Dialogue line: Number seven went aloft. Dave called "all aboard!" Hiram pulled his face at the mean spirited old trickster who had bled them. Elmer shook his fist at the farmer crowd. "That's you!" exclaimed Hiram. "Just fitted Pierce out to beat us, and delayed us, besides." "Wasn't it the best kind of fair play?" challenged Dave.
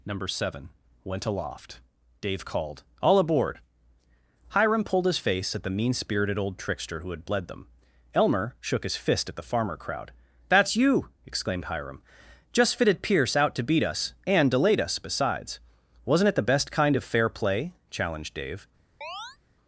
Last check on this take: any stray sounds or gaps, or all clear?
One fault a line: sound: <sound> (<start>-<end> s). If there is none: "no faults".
sound: chirp (19.0-19.4 s)